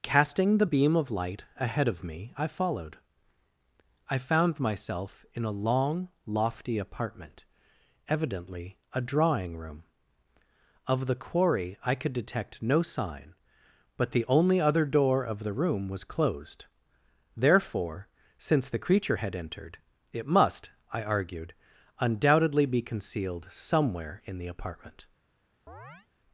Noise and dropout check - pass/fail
fail